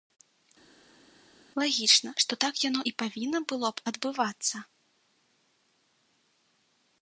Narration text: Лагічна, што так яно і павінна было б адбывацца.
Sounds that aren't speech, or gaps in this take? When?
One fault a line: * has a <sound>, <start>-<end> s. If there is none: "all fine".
all fine